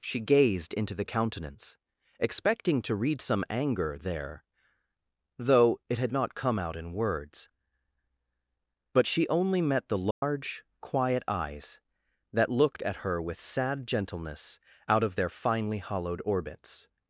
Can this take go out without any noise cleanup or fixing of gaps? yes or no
no